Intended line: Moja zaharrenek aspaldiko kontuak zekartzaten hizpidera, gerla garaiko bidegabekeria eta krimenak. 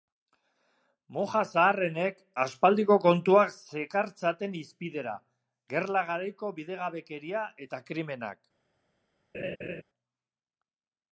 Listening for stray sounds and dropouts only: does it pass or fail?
fail